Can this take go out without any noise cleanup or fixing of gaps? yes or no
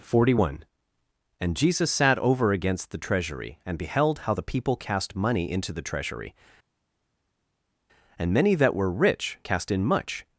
yes